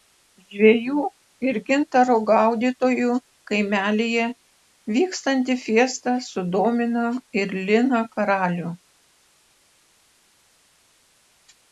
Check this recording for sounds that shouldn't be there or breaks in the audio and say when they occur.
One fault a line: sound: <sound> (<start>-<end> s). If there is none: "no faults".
no faults